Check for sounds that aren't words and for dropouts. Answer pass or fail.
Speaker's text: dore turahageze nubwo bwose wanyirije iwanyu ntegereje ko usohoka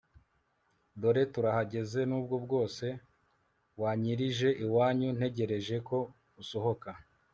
pass